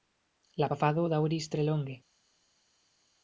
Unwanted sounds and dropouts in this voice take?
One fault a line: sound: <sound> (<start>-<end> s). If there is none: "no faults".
no faults